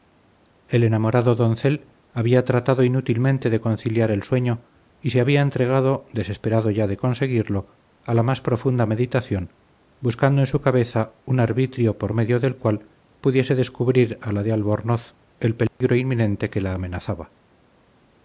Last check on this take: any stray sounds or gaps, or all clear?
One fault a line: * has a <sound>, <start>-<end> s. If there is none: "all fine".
* has a dropout, 15.7-15.8 s